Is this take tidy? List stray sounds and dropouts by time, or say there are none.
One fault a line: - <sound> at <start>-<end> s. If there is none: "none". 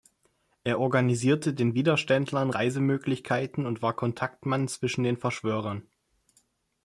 none